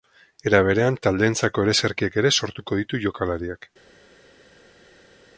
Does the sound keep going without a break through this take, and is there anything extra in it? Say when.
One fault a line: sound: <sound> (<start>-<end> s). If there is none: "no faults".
no faults